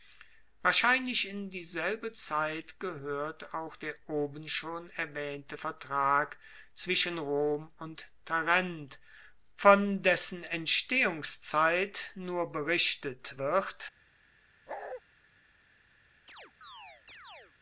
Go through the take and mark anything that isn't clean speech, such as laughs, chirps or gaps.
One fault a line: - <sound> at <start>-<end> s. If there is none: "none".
- bark at 14.7-15.0 s
- chirp at 16.3-17.5 s